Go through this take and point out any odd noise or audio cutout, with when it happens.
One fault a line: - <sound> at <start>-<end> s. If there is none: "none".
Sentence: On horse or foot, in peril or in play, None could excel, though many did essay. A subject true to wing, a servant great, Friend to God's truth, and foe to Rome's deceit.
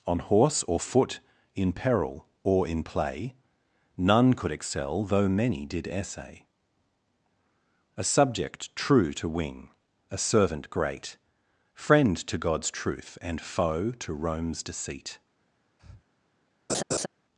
- breath at 15.8-16.0 s
- laugh at 16.7-17.1 s